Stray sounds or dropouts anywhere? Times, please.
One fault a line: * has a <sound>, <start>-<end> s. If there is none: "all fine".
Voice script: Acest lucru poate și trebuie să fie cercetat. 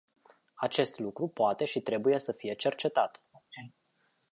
* has a sneeze, 3.3-3.7 s